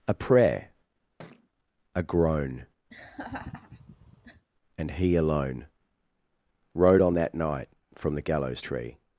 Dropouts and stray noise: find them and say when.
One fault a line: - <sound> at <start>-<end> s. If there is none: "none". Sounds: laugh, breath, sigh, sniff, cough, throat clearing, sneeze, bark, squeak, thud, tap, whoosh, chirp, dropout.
- thud at 1.2-1.5 s
- laugh at 2.9-4.5 s